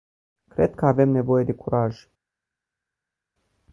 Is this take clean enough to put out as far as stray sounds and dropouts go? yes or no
yes